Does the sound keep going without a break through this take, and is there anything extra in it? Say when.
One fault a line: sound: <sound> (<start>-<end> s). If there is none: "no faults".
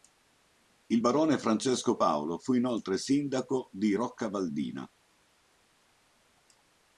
no faults